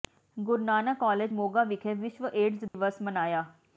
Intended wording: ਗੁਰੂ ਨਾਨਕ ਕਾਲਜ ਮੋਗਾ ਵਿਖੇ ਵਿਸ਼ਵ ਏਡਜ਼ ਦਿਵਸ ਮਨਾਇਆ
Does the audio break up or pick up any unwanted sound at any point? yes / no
yes